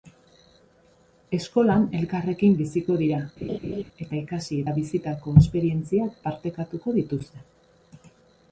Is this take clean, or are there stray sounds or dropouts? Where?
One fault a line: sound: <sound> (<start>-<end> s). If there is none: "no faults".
sound: laugh (3.4-3.8 s)